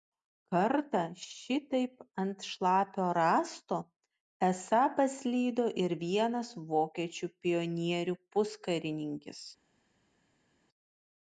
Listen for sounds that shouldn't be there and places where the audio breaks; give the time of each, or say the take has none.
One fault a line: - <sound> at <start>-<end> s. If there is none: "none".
none